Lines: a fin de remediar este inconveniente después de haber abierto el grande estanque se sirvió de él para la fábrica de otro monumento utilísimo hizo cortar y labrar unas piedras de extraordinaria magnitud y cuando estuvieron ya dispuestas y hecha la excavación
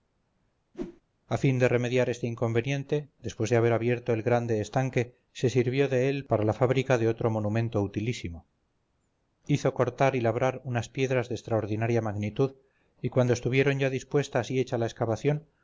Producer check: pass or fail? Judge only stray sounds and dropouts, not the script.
fail